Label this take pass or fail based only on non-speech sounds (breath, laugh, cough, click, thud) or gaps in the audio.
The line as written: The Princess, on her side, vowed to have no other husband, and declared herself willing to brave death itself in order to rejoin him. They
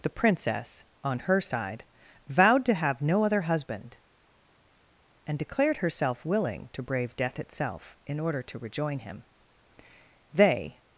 pass